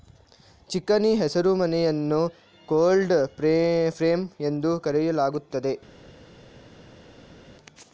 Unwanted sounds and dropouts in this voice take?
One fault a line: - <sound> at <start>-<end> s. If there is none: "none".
none